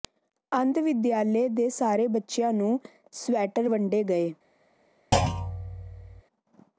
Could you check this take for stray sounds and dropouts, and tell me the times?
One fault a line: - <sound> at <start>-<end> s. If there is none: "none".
- thud at 5.1-6.2 s